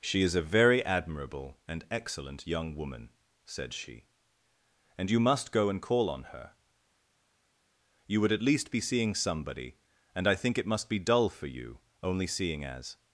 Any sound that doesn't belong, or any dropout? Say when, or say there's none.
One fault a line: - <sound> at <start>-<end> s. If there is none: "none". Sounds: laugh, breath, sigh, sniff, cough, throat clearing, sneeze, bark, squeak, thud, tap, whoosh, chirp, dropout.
none